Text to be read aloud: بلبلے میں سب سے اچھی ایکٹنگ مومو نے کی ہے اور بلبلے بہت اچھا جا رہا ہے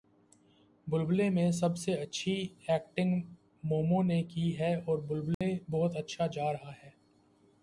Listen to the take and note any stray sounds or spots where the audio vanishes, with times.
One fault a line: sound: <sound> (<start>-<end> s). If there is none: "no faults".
sound: dropout (5.3-5.4 s)